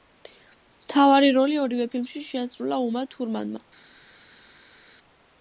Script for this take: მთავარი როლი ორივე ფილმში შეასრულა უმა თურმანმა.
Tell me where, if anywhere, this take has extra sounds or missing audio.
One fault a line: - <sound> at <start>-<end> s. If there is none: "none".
none